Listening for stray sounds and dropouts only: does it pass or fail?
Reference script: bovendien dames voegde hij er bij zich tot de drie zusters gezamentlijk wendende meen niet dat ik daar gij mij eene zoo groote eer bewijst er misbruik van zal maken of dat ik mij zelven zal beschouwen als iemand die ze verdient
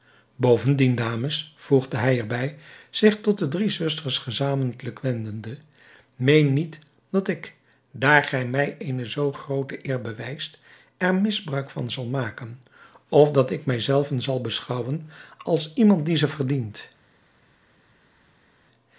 pass